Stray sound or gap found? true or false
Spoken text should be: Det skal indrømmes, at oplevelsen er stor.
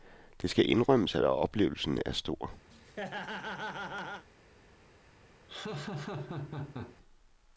true